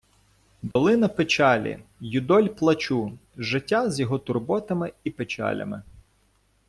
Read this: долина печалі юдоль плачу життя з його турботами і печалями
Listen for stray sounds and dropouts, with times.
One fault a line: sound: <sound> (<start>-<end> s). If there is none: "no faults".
sound: dropout (0.7-0.8 s)